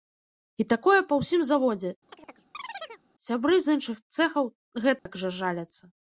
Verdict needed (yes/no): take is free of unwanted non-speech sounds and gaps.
no